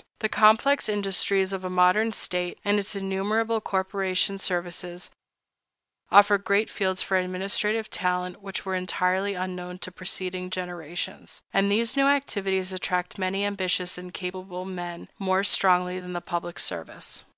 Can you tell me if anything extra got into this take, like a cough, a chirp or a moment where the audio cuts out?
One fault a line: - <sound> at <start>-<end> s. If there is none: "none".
none